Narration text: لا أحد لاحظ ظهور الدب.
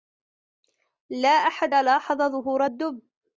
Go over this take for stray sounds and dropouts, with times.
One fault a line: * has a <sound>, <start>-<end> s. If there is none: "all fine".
all fine